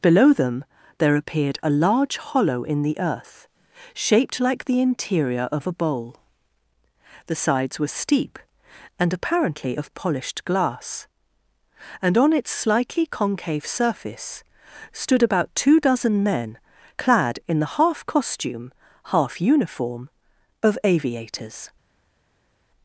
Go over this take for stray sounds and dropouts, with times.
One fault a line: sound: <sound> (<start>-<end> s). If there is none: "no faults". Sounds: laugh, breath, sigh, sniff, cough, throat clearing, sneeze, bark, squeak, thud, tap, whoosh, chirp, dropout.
no faults